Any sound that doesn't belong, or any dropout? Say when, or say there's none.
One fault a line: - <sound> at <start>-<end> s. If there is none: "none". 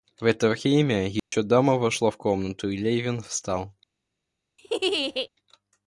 - dropout at 1.2-1.3 s
- laugh at 4.6-5.3 s